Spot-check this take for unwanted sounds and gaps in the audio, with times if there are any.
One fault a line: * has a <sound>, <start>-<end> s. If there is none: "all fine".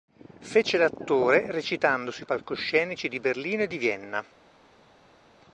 all fine